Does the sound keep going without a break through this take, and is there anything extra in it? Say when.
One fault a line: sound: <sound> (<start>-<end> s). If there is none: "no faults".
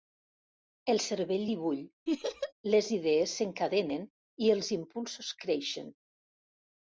sound: laugh (2.1-2.5 s)